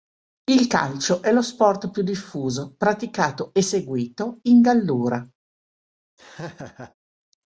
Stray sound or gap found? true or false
true